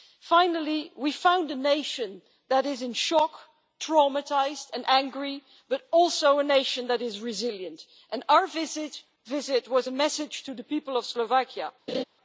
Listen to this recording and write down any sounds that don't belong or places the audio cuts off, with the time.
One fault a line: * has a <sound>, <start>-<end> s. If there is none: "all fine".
* has a laugh, 11.9-12.0 s